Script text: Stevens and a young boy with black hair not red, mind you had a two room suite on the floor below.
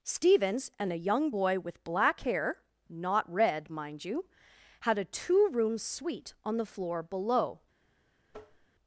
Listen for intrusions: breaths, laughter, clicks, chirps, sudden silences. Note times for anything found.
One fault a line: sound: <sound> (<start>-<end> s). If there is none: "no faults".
sound: tap (8.3-8.7 s)